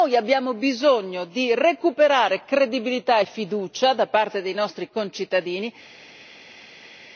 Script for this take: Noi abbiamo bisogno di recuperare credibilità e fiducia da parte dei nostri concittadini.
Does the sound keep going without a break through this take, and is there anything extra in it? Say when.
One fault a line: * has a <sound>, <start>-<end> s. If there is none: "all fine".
all fine